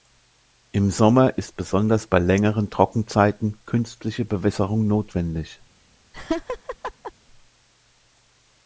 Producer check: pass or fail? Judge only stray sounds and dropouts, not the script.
fail